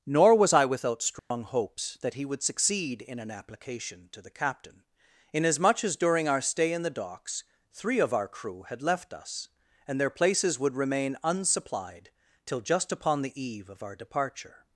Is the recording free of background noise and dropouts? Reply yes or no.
no